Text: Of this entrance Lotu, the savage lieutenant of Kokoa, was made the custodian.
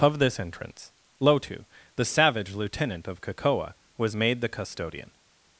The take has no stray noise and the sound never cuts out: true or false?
true